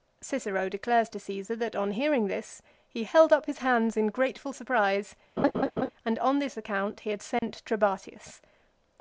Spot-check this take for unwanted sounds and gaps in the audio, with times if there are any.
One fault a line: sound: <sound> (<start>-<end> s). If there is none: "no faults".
sound: laugh (5.4-5.9 s)
sound: dropout (7.4-7.4 s)